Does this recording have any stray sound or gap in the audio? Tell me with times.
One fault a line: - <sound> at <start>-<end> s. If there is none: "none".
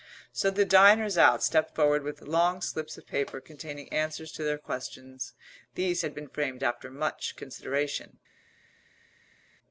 none